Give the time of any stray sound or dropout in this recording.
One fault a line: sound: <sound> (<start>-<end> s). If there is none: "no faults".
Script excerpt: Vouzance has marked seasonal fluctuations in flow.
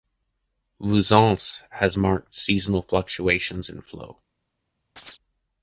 sound: chirp (5.0-5.2 s)